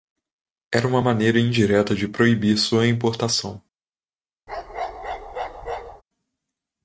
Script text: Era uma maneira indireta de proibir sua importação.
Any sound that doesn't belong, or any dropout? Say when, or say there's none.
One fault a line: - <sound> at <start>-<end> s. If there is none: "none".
- bark at 4.5-6.0 s